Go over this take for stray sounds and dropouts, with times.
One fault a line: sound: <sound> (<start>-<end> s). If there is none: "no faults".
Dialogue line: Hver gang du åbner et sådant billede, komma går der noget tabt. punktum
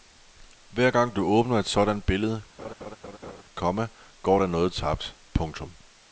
sound: laugh (2.6-3.4 s)